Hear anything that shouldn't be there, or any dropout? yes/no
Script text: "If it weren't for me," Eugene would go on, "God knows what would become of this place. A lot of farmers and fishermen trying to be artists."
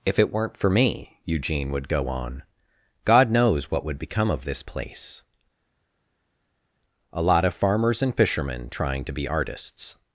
no